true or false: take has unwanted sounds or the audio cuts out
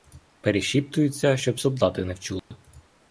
true